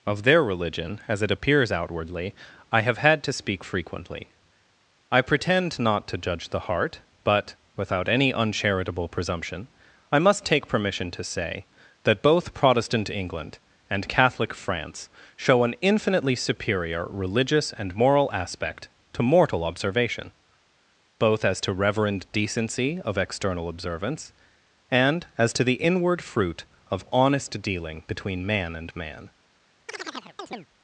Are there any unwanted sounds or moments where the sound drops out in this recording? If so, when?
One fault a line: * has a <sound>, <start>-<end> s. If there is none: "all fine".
* has a chirp, 29.9-30.7 s